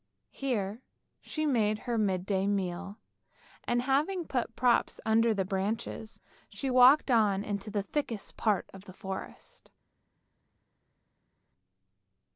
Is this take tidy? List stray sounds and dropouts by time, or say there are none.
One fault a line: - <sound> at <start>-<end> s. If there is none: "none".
none